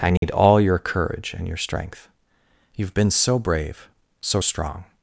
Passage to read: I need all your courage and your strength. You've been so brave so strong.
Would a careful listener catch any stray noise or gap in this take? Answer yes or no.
yes